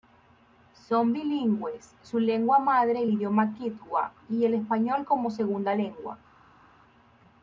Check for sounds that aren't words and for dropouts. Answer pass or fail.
pass